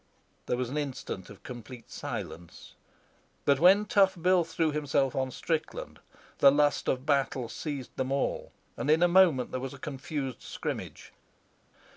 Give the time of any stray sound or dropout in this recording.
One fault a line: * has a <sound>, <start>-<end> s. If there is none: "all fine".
all fine